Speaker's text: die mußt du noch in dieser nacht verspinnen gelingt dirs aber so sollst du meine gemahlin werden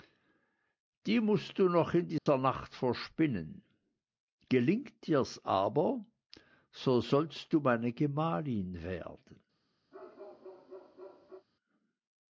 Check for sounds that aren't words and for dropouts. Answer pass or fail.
fail